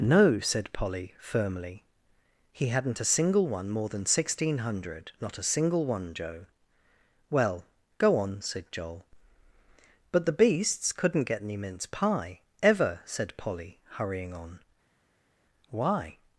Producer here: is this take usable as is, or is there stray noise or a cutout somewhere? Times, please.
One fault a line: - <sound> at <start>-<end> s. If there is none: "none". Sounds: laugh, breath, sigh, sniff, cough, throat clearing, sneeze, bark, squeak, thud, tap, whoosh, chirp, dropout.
none